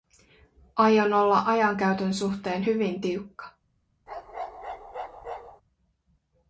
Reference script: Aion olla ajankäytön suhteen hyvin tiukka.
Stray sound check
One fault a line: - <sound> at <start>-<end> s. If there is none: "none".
- bark at 4.1-5.6 s